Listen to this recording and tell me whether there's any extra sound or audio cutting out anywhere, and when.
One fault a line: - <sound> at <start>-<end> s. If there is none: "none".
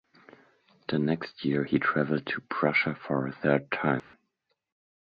- dropout at 4.0-4.1 s